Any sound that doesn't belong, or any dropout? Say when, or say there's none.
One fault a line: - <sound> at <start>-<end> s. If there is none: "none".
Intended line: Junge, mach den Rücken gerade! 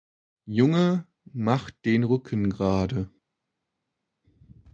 none